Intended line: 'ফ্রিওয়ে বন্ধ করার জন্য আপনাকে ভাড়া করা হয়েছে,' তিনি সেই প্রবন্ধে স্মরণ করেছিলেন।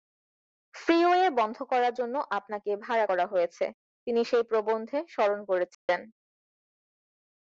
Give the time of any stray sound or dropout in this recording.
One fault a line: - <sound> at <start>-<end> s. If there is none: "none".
- dropout at 5.7-5.9 s